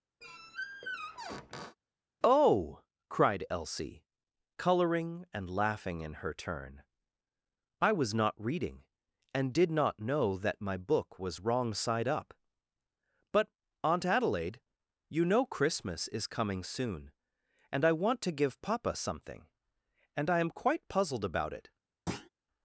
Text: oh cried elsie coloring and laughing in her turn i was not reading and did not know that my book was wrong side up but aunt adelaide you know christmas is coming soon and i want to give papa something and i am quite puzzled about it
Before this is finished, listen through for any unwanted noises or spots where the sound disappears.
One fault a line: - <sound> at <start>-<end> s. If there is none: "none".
- squeak at 0.2-1.8 s
- thud at 22.1-22.3 s